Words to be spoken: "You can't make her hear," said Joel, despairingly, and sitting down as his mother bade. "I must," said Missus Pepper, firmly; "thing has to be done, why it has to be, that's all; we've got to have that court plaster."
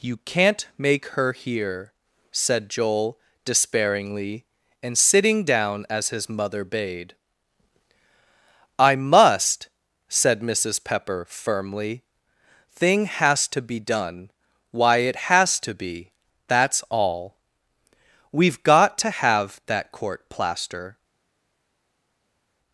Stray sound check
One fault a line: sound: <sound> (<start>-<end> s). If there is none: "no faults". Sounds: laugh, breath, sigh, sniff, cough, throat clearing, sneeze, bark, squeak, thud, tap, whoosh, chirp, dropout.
no faults